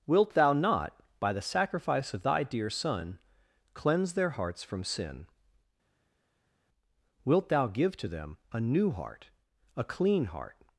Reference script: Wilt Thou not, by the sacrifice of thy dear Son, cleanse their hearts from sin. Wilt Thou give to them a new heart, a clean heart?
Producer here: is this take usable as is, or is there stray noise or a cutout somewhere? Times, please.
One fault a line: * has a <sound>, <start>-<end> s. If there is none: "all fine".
all fine